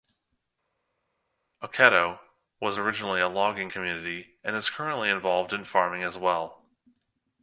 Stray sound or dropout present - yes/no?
no